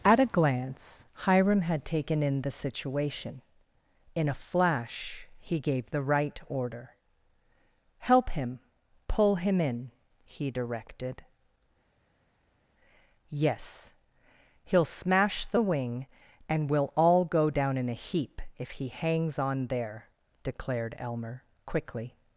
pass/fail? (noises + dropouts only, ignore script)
pass